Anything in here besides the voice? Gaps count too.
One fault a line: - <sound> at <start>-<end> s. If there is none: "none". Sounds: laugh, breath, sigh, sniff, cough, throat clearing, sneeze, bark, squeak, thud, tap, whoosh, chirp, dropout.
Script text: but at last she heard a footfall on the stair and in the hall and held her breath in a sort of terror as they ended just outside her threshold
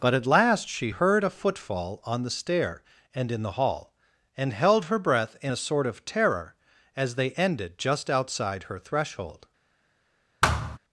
- thud at 10.4-10.8 s